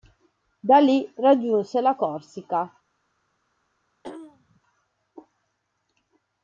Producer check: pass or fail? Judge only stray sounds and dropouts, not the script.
fail